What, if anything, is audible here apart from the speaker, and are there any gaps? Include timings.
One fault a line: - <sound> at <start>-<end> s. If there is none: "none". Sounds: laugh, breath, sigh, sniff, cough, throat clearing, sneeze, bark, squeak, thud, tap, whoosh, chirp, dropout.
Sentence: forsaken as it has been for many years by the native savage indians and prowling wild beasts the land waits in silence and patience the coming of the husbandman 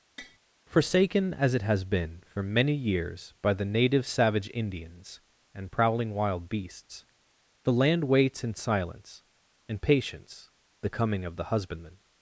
- tap at 0.2-0.4 s